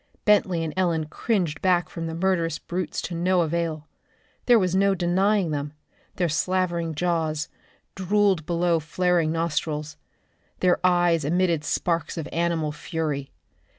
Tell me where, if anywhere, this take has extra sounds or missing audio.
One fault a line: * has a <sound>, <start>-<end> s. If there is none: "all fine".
all fine